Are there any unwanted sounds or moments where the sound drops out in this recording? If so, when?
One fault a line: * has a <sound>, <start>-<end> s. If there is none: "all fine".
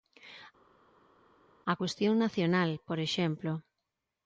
all fine